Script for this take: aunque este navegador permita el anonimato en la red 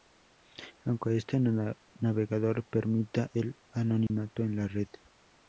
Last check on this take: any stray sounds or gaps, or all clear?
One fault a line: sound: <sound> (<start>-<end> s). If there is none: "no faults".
sound: dropout (4.1-4.1 s)